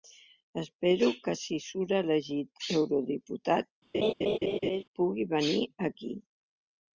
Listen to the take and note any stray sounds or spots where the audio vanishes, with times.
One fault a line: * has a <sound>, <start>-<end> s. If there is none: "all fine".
* has a laugh, 3.9-4.8 s